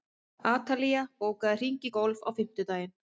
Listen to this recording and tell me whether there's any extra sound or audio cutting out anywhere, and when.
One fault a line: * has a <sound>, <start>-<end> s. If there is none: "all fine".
all fine